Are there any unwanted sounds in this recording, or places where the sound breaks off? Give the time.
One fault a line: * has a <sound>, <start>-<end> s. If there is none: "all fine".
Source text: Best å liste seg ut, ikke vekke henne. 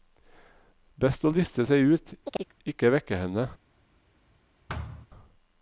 * has a chirp, 2.2-2.5 s
* has a thud, 4.7-5.1 s